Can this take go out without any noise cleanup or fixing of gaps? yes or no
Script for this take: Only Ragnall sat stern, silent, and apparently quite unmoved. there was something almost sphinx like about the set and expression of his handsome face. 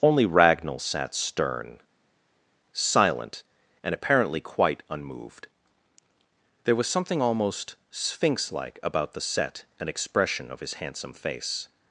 yes